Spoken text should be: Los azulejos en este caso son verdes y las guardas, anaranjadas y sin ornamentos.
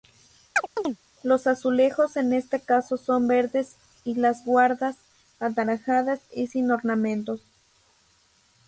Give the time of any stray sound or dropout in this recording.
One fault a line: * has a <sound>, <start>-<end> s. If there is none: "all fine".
* has a chirp, 0.6-1.0 s